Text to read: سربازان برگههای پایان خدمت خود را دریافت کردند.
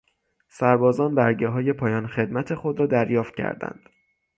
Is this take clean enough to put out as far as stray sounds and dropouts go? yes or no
yes